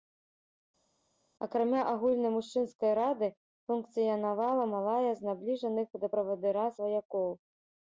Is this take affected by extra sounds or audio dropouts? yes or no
no